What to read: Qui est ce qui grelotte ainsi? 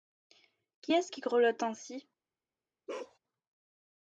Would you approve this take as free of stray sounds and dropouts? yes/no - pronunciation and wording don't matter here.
no